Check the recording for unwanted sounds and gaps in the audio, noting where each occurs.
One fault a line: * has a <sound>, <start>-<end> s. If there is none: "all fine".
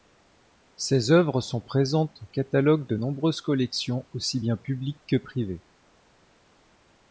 all fine